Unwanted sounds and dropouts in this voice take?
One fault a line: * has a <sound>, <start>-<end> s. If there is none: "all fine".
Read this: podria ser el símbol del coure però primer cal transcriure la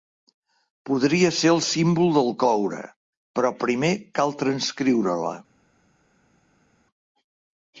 all fine